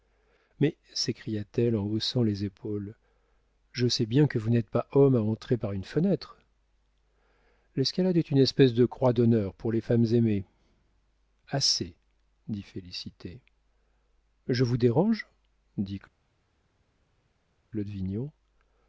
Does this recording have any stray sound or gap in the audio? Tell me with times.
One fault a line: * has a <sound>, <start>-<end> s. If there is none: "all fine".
all fine